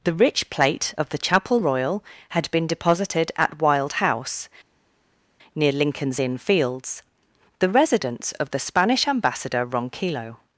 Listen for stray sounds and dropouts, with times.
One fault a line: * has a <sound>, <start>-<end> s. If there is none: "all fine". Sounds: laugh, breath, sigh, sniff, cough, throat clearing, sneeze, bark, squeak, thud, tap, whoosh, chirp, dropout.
all fine